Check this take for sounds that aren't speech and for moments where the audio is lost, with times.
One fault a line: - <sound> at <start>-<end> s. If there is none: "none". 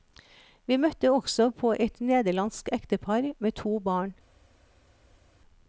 none